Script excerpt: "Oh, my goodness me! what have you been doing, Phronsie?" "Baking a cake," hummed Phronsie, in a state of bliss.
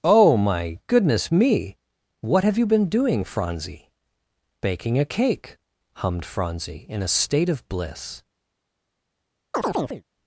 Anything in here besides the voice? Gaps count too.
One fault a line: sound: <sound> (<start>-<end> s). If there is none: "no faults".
sound: chirp (9.5-10.0 s)